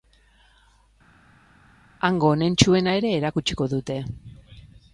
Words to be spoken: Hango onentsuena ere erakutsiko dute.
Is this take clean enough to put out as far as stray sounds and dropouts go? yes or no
yes